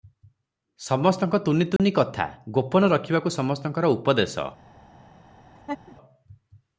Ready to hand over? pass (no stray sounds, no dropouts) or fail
fail